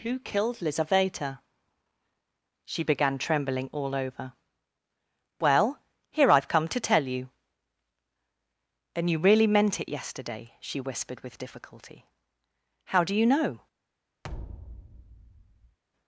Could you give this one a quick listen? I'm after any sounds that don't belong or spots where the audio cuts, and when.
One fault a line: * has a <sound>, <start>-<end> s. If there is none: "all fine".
* has a thud, 14.2-15.8 s